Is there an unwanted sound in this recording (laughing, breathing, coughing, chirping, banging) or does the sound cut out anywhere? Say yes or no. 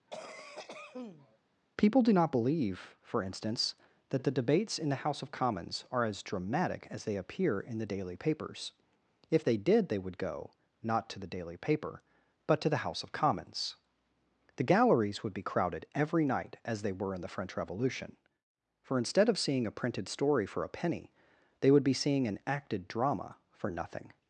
yes